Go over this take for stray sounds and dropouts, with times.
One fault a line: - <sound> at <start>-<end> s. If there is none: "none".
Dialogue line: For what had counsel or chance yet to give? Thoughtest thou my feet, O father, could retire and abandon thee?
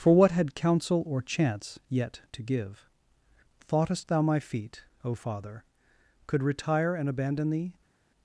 none